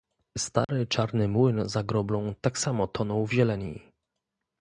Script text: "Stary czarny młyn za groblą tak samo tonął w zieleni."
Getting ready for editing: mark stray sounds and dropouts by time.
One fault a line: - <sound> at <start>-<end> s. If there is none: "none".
- dropout at 0.6-0.7 s